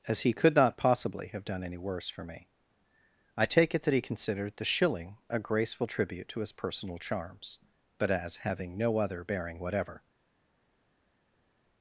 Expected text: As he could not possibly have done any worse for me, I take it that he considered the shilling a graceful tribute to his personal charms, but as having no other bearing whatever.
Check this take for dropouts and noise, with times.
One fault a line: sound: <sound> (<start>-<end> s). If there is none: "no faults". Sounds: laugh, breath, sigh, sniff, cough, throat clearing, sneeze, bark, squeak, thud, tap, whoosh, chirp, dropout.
no faults